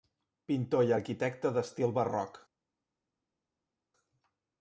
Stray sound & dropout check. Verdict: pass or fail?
pass